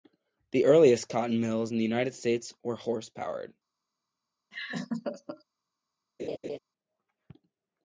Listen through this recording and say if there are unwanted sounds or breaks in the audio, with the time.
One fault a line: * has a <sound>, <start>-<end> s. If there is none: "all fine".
* has a laugh, 4.5-5.4 s
* has a laugh, 6.2-6.6 s